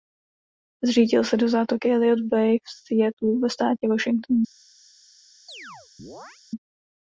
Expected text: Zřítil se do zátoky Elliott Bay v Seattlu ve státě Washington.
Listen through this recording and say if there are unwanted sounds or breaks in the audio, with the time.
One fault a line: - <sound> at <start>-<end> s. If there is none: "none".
- chirp at 5.5-6.4 s